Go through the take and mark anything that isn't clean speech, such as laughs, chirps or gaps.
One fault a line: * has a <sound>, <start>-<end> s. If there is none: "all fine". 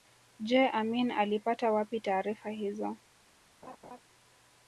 * has a laugh, 3.6-4.0 s